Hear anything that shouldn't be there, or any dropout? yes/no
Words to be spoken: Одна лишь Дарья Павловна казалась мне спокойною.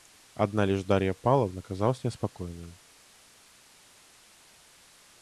no